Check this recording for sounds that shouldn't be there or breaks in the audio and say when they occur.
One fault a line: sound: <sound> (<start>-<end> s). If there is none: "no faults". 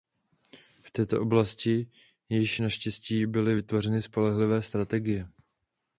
no faults